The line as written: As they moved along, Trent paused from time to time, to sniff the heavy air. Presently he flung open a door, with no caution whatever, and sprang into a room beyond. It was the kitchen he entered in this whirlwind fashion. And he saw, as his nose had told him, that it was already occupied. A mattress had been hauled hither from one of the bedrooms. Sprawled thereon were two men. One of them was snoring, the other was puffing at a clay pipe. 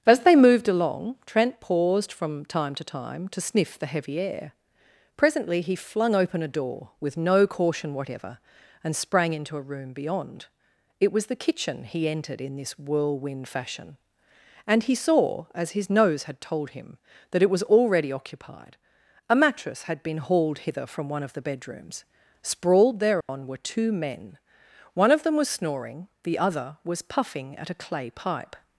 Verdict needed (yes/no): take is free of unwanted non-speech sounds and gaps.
no